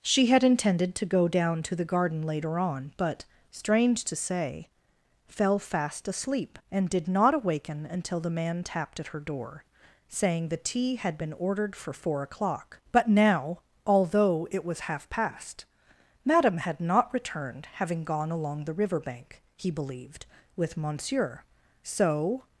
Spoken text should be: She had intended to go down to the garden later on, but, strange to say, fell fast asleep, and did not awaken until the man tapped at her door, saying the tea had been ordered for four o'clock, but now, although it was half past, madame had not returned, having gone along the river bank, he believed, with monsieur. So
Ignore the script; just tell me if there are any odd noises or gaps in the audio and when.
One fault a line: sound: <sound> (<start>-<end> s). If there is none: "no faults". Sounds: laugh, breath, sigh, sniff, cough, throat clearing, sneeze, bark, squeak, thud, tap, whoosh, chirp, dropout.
no faults